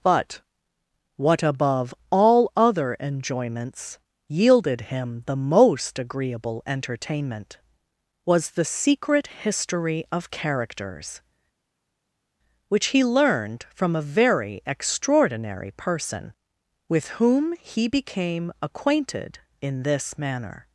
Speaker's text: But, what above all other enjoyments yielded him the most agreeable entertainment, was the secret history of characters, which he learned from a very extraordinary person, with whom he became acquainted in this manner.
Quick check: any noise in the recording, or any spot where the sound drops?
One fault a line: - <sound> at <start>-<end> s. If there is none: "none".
none